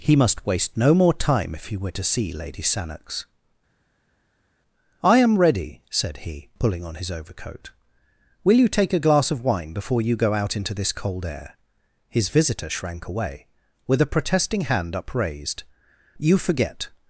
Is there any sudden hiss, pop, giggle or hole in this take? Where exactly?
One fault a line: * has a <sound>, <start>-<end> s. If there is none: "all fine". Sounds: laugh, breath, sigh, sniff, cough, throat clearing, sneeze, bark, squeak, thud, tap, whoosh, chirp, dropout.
all fine